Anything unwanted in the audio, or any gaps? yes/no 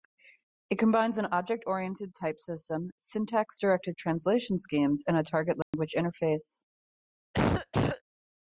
yes